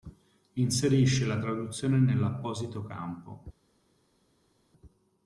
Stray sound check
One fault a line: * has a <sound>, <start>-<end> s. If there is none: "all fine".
all fine